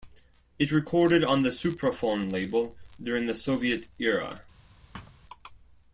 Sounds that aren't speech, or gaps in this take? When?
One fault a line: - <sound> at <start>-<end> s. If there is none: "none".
- thud at 4.9-5.2 s